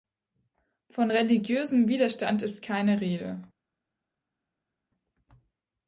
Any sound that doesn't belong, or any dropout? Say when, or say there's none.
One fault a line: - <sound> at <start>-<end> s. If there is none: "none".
none